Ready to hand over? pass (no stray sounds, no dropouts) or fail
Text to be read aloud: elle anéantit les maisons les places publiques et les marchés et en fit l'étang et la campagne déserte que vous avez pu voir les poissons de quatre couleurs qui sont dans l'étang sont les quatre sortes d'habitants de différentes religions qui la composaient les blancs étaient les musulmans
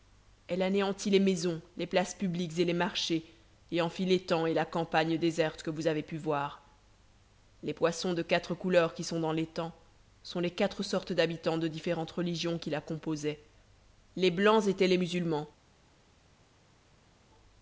pass